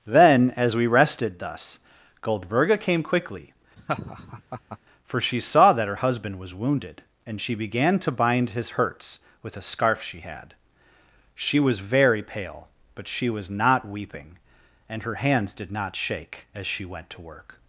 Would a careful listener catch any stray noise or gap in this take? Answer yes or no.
yes